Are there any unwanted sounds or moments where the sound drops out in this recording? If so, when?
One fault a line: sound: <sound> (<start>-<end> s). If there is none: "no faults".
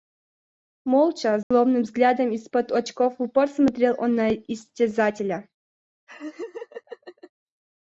sound: dropout (1.4-1.5 s)
sound: laugh (6.1-7.3 s)